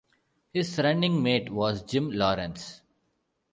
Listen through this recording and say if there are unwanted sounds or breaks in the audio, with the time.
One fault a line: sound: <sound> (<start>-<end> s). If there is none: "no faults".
no faults